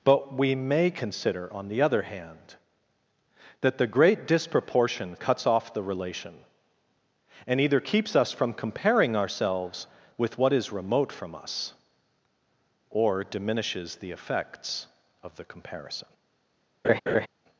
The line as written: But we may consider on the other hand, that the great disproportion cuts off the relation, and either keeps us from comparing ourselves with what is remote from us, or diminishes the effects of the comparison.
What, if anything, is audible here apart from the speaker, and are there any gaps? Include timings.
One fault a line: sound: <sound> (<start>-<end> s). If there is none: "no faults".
sound: laugh (16.8-17.3 s)